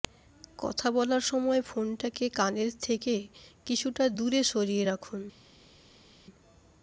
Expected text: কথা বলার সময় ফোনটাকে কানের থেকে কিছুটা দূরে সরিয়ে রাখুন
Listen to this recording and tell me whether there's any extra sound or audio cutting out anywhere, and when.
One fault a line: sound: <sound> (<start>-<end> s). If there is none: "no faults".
no faults